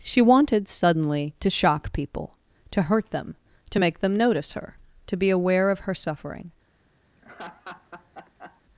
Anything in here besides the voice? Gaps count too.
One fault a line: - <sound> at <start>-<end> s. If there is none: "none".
- laugh at 7.2-8.6 s